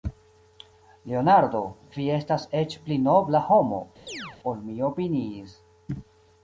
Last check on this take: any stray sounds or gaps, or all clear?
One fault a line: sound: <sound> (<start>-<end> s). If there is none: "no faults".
sound: chirp (4.1-4.4 s)